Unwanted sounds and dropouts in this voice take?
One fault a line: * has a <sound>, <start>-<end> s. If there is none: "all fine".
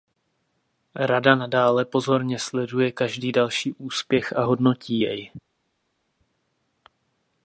all fine